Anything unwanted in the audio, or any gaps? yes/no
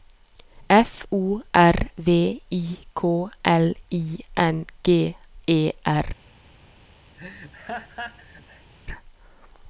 yes